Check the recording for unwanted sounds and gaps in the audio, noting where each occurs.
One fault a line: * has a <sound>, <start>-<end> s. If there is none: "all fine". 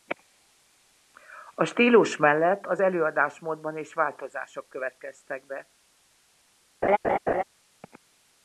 * has a laugh, 6.8-7.4 s